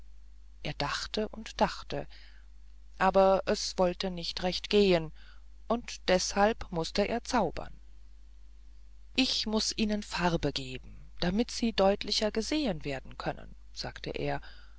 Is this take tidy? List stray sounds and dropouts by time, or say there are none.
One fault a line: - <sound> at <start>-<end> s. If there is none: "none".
none